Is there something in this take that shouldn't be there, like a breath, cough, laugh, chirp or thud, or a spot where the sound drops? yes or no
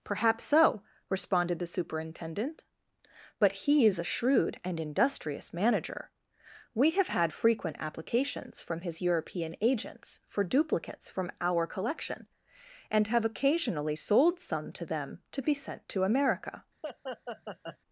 yes